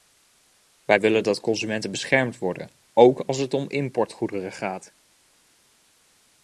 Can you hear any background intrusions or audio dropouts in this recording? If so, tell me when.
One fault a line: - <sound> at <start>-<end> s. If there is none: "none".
none